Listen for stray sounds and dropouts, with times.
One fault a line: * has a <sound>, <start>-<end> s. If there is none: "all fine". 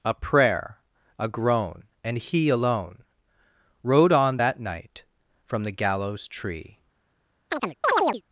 * has a chirp, 7.5-8.2 s